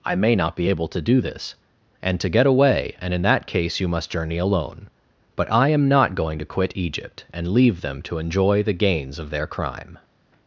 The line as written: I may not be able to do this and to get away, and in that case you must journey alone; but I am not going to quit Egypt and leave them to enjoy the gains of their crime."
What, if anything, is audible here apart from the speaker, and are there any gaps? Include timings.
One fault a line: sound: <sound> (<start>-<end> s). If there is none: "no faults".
no faults